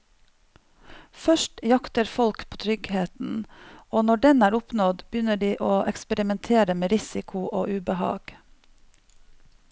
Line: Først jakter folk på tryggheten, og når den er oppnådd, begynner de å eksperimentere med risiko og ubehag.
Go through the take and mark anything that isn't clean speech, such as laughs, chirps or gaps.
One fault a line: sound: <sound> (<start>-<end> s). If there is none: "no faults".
no faults